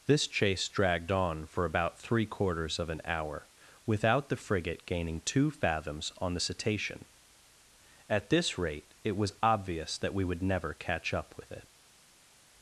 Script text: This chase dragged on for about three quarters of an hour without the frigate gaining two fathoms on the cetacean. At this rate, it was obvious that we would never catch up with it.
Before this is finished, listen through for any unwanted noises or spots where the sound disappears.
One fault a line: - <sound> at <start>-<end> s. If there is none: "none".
none